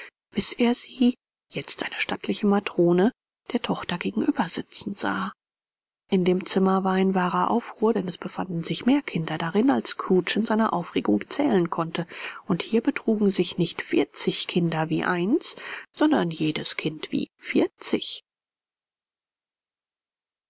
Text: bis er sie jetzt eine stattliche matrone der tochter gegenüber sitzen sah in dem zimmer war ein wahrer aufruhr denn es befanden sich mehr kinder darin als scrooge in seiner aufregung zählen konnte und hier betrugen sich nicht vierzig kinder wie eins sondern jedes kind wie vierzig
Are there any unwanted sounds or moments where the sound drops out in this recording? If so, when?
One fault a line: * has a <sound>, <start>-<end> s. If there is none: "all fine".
all fine